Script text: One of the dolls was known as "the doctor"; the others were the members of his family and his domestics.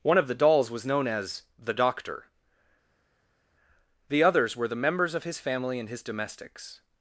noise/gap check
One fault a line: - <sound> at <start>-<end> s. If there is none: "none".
none